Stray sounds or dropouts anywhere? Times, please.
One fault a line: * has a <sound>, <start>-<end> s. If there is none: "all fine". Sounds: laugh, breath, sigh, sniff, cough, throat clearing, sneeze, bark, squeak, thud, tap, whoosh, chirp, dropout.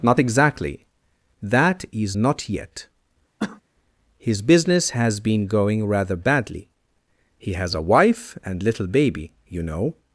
* has a cough, 3.4-3.6 s